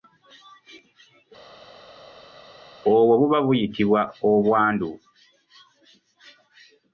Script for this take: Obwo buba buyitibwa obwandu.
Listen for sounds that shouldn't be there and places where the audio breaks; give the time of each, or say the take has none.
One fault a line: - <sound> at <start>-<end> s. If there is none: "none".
none